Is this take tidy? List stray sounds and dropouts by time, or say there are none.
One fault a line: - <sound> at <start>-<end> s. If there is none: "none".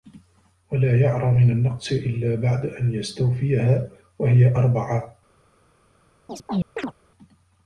- chirp at 6.3-6.9 s